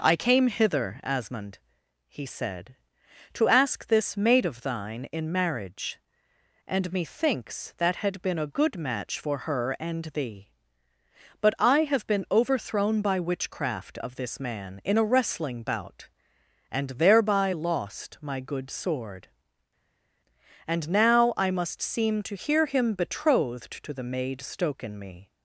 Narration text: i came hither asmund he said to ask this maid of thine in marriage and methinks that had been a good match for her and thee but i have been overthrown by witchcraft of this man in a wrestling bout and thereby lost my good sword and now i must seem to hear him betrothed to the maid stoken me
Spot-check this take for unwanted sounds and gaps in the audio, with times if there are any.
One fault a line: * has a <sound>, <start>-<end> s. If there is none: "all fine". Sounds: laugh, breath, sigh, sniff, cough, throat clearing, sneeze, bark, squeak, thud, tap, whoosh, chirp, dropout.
all fine